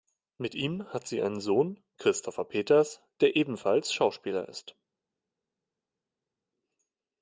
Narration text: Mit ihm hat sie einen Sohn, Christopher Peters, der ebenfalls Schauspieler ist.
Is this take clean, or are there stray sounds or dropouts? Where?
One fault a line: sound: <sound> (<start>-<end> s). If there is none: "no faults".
no faults